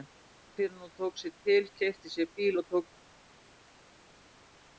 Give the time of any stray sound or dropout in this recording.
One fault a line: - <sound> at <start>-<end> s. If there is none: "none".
none